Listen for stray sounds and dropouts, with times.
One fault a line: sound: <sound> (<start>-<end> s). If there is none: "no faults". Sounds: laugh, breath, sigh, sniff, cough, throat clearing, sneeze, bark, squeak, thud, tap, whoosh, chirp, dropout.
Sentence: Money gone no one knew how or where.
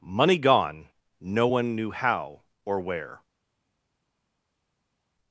no faults